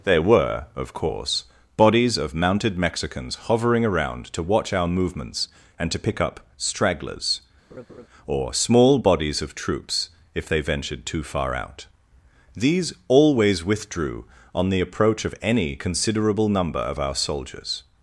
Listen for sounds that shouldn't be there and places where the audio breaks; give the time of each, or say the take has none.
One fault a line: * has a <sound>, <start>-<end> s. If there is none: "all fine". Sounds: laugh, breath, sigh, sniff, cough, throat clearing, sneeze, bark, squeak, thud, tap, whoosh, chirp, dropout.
* has a laugh, 7.7-8.1 s